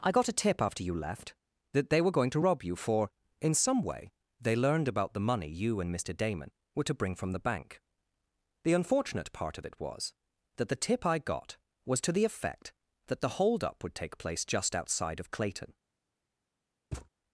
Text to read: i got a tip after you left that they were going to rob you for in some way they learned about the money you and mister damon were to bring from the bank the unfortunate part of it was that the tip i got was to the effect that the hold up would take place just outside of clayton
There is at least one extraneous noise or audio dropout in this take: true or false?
true